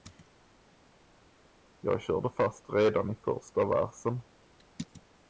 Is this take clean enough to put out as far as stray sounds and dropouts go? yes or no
yes